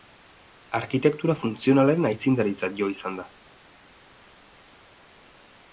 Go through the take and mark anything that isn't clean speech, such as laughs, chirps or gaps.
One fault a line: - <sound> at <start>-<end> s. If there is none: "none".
none